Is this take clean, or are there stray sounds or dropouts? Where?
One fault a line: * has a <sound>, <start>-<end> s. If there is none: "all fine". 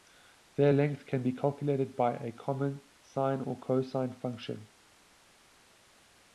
all fine